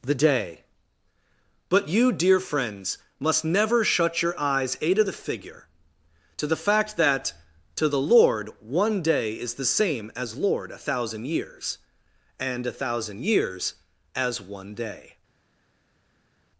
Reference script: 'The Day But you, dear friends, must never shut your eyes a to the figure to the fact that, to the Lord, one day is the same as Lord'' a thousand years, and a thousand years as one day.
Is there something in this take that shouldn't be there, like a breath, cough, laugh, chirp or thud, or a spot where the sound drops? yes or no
no